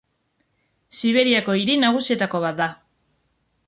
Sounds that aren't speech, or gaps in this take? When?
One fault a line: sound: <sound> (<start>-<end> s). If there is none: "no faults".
no faults